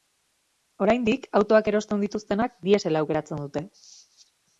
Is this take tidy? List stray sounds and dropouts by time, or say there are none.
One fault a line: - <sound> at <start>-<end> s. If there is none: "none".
none